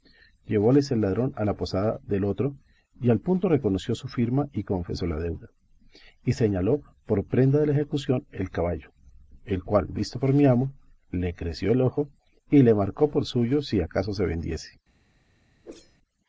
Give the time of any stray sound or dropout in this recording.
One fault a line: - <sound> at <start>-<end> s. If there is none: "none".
- whoosh at 15.6-16.0 s